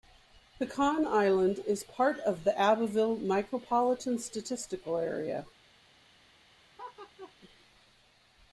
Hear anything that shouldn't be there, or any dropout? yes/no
yes